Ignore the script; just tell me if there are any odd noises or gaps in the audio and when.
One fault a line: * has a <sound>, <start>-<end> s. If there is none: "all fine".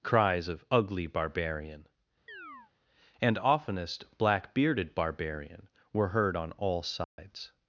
* has a chirp, 2.3-2.7 s
* has a dropout, 7.0-7.2 s